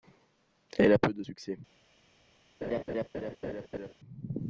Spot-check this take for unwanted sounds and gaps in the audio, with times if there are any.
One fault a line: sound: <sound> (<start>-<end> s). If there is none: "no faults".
sound: laugh (2.6-3.9 s)